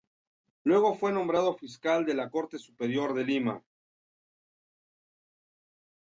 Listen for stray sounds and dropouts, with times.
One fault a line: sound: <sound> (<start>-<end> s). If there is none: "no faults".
no faults